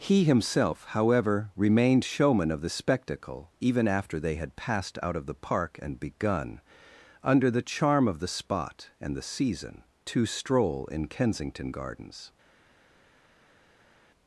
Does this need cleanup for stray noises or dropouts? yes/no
no